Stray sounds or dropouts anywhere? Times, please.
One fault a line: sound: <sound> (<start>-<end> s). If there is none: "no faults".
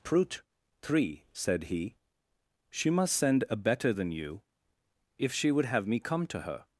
no faults